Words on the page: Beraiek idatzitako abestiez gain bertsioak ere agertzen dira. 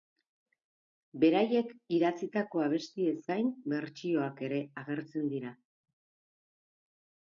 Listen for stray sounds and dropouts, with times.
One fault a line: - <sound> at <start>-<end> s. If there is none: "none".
none